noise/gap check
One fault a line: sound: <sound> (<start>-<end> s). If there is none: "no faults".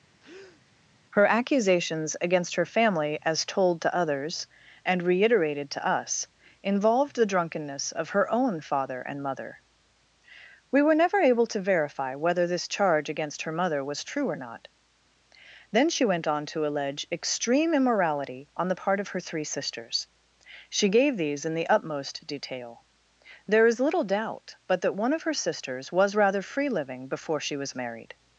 sound: breath (0.2-0.6 s)